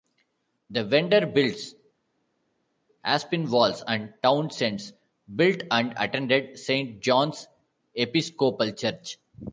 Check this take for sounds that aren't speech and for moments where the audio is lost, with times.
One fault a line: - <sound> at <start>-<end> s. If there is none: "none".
none